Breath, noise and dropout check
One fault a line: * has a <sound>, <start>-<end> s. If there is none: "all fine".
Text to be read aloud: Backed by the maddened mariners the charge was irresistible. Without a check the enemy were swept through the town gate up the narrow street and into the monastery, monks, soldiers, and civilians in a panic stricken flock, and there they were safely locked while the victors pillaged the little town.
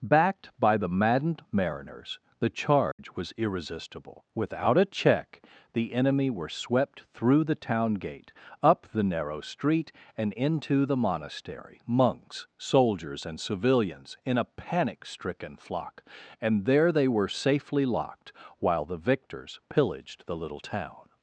* has a dropout, 2.9-3.0 s